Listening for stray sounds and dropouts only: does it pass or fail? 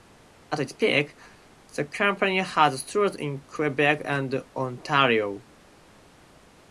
pass